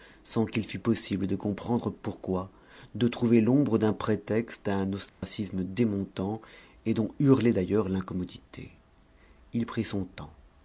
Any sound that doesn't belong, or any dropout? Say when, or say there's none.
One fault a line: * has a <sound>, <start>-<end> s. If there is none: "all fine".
* has a dropout, 5.1-5.2 s